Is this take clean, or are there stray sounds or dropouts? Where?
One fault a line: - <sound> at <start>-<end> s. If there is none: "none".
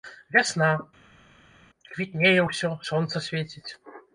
none